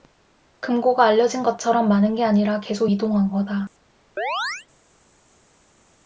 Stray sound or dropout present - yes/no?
yes